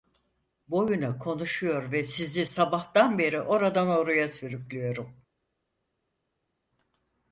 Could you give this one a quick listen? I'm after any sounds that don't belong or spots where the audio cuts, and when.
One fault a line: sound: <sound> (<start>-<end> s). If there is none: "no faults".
no faults